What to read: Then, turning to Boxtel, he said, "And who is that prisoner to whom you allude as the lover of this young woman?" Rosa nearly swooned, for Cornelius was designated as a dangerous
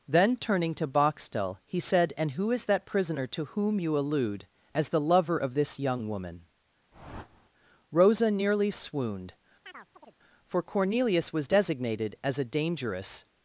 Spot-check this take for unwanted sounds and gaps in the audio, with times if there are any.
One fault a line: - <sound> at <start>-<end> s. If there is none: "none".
- whoosh at 6.9-7.5 s
- chirp at 9.6-10.2 s